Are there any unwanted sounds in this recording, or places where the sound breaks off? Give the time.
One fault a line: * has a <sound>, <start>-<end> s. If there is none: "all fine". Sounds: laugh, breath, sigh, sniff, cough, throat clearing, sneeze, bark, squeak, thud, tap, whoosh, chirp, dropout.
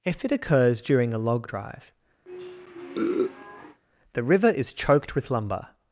* has a sniff, 2.2-3.8 s